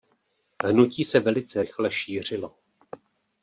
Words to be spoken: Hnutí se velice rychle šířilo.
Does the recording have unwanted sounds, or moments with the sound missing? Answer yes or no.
no